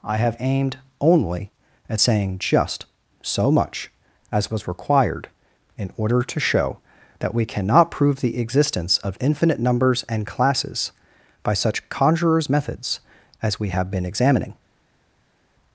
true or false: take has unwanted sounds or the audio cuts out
false